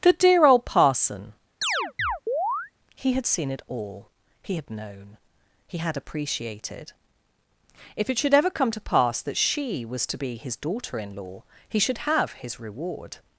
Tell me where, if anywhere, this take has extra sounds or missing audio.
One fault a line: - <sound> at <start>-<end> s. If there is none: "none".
- chirp at 1.6-2.7 s